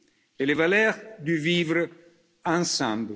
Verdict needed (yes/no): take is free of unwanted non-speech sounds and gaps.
yes